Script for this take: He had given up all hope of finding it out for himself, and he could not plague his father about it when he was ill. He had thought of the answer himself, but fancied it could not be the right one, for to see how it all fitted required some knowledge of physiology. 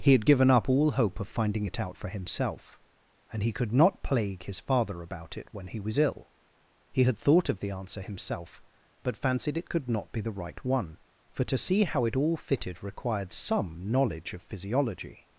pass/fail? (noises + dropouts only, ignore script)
pass